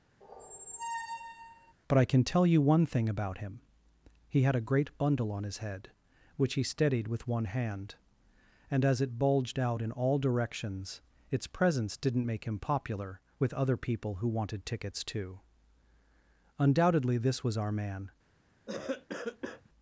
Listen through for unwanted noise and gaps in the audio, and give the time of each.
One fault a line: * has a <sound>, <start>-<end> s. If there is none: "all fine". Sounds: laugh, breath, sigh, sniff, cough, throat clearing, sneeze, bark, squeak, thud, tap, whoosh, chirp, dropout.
* has a squeak, 0.2-1.7 s
* has a cough, 18.7-19.7 s